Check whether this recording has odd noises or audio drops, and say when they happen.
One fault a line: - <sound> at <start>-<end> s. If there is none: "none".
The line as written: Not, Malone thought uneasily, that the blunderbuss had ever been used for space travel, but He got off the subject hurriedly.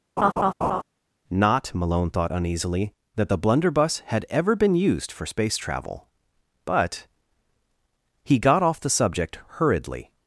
- laugh at 0.2-0.8 s